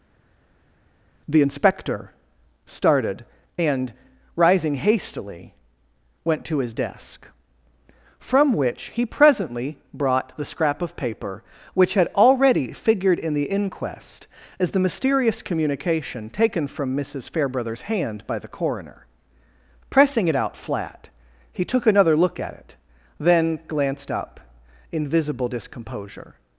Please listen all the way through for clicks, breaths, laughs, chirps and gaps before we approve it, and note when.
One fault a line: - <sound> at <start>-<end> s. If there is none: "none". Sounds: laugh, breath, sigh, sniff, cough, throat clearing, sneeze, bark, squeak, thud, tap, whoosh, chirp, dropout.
none